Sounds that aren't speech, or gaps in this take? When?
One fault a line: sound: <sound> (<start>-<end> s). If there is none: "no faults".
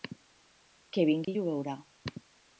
sound: dropout (1.2-1.3 s)